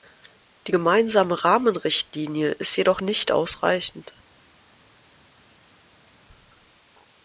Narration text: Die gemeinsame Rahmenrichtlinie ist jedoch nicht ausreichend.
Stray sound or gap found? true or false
false